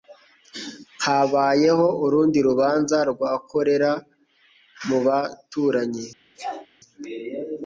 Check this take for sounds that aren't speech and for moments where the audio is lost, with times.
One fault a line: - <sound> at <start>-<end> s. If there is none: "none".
- sneeze at 6.3-6.7 s